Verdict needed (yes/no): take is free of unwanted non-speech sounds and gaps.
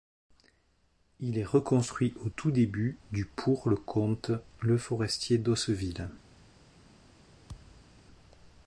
no